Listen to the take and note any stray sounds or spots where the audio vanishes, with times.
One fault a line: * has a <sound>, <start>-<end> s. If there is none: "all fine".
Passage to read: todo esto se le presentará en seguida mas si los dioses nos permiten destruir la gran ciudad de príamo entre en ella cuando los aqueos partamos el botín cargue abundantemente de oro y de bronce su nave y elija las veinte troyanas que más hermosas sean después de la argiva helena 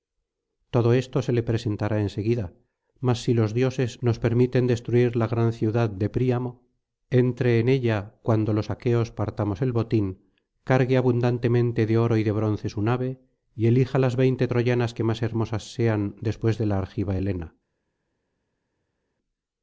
all fine